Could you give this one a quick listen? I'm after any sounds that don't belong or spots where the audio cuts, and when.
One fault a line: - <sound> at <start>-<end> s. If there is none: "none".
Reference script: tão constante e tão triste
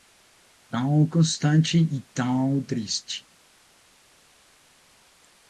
none